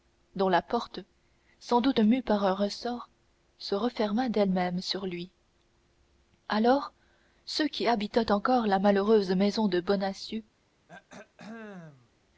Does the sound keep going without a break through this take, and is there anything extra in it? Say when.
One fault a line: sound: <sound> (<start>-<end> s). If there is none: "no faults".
sound: throat clearing (10.9-12.1 s)